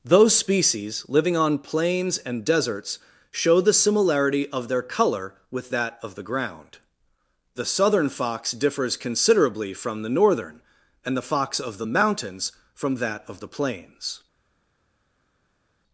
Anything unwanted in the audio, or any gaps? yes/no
no